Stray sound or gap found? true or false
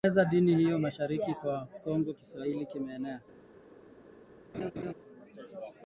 true